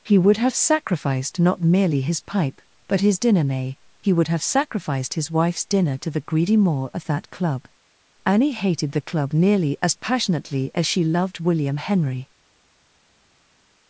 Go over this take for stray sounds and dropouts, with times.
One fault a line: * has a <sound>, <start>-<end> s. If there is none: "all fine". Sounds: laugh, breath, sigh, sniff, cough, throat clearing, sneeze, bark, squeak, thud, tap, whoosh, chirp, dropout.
all fine